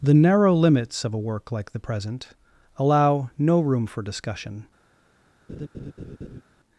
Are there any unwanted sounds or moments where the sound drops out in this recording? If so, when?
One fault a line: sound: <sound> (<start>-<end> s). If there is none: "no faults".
sound: laugh (5.5-6.4 s)